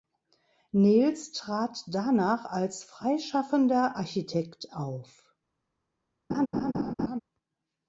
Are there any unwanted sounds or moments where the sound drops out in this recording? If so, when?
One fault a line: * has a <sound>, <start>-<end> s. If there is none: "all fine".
* has a laugh, 6.3-7.2 s